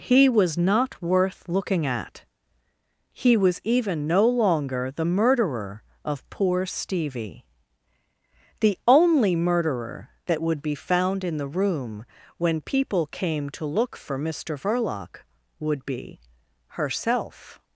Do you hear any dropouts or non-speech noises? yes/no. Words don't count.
no